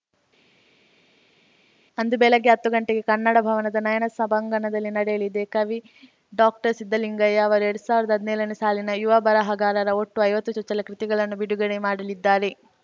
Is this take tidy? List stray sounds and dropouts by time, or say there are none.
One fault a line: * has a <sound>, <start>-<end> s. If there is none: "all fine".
all fine